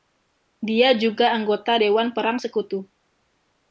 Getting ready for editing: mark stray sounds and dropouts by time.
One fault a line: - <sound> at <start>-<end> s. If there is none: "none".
none